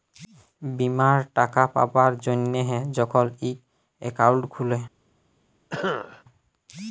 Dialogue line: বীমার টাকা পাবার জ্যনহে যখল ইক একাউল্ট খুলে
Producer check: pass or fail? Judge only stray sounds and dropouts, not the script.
fail